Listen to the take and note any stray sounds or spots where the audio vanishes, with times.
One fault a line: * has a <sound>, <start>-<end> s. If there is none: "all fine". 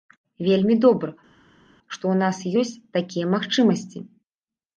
all fine